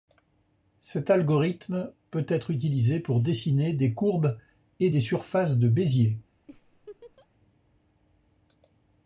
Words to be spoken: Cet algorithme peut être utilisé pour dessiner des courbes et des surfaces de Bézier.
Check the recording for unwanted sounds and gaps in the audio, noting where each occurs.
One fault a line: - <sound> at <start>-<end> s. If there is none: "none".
- laugh at 6.5-7.3 s